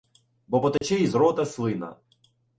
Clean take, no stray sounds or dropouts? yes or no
no